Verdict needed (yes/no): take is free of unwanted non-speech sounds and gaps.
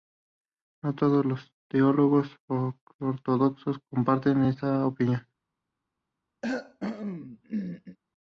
no